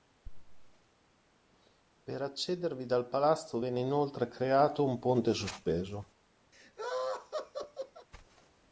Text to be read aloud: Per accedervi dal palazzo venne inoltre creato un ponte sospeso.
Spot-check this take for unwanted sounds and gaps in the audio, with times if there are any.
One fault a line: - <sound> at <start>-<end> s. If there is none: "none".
- laugh at 6.5-8.1 s